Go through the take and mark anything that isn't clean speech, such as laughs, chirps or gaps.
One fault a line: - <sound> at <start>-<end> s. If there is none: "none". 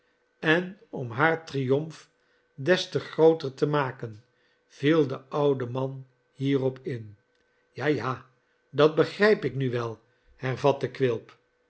none